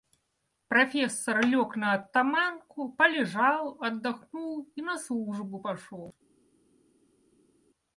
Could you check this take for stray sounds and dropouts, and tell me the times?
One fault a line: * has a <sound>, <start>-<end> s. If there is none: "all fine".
all fine